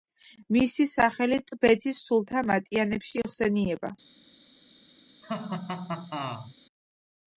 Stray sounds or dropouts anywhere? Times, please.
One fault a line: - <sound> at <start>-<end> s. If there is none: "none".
- laugh at 5.2-6.5 s